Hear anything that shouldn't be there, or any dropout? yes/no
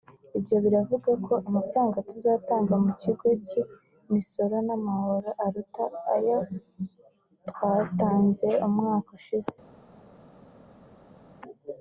no